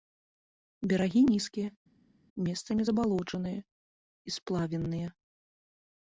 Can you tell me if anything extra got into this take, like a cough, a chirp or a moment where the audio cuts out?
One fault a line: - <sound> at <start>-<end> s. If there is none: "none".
none